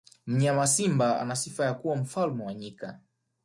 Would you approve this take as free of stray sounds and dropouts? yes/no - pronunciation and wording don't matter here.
yes